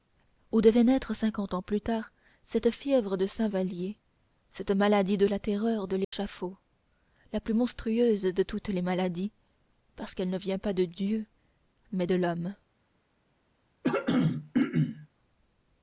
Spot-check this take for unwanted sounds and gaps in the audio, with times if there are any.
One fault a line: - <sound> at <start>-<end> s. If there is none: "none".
- dropout at 6.0-6.1 s
- throat clearing at 13.8-15.1 s